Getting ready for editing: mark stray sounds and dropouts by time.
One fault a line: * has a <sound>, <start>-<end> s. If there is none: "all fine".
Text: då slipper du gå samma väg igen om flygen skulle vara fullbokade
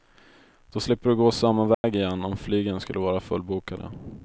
* has a dropout, 1.7-1.8 s